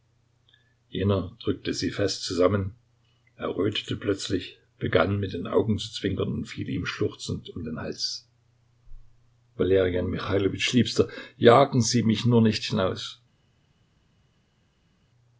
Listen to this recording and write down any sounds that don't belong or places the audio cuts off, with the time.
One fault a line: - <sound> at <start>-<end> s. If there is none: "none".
none